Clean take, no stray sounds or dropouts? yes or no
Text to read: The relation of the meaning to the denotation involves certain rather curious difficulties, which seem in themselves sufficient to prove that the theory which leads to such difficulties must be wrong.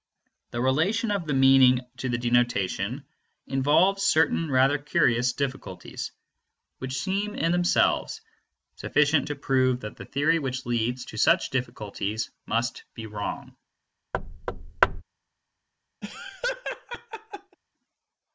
no